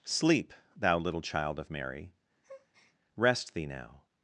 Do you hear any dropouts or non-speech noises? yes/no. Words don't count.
yes